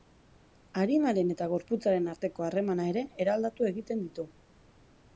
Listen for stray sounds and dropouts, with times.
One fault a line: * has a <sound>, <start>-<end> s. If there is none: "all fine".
all fine